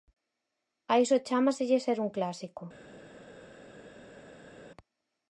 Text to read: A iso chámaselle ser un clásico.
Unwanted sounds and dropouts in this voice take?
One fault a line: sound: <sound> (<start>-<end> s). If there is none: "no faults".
no faults